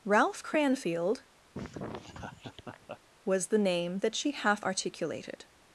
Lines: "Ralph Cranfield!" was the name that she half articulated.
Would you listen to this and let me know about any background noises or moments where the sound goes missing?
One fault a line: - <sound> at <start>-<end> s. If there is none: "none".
- laugh at 1.5-3.0 s